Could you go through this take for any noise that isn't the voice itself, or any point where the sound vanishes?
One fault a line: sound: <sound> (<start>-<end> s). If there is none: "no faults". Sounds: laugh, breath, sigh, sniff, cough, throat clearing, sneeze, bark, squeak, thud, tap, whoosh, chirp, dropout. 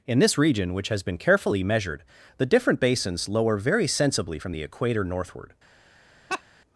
sound: laugh (6.3-6.4 s)